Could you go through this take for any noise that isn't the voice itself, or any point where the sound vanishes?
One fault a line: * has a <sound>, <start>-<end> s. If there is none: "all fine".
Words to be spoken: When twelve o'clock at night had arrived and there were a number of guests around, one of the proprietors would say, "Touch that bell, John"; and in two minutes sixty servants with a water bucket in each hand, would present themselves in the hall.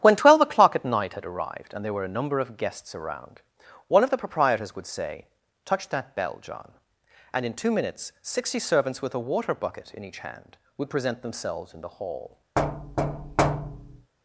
* has a thud, 12.6-14.1 s